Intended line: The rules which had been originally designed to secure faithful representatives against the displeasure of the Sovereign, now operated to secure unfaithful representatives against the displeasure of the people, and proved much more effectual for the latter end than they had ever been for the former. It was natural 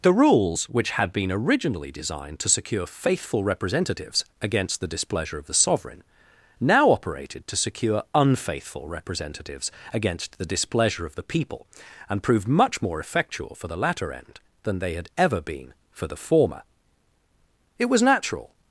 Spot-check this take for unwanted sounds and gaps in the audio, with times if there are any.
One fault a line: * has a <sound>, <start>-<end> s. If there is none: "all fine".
all fine